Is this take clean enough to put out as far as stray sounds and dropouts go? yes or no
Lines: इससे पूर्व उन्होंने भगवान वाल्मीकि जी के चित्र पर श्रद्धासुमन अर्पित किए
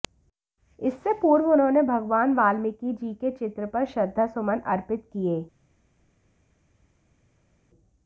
yes